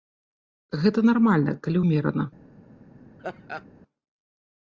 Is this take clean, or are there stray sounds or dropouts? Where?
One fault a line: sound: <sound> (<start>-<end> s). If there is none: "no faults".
sound: laugh (3.2-3.7 s)